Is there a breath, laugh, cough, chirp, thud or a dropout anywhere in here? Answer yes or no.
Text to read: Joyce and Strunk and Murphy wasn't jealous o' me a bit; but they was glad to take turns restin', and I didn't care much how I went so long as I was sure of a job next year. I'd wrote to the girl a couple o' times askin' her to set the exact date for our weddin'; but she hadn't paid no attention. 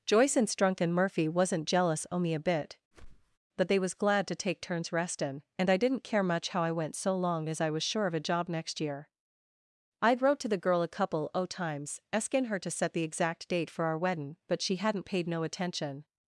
yes